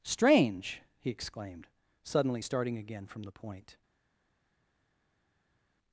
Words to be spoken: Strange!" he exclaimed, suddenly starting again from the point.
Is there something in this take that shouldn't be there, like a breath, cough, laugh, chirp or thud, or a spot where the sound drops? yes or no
no